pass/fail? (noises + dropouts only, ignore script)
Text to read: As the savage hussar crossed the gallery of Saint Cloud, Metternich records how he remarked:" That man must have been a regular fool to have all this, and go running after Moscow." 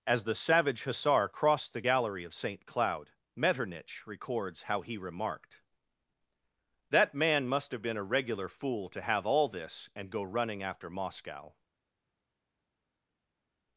pass